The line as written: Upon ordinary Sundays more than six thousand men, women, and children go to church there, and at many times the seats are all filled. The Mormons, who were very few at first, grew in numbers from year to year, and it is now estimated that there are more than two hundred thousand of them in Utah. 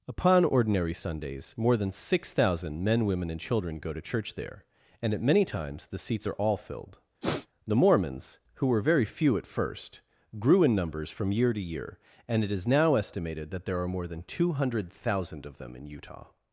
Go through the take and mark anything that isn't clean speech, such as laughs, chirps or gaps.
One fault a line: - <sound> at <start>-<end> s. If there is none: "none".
- sniff at 7.2-7.5 s